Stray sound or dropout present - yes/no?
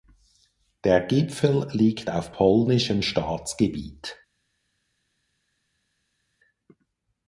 no